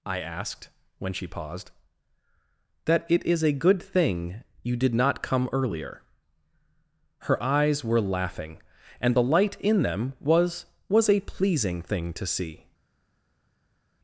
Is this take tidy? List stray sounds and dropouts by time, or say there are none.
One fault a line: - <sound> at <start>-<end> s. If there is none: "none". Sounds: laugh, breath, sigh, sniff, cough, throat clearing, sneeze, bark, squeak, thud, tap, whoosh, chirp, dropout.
none